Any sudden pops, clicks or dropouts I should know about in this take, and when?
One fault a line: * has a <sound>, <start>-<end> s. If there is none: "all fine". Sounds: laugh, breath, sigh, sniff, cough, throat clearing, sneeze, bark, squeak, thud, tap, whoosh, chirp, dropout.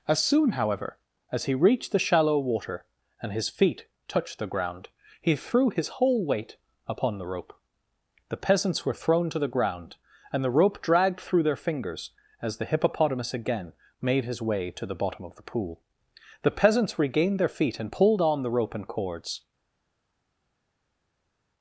all fine